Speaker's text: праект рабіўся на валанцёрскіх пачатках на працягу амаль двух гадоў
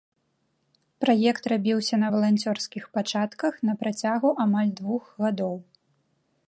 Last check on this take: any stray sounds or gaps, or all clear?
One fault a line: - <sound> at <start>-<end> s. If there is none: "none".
none